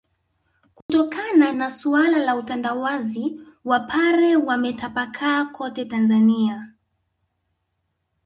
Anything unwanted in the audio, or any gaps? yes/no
yes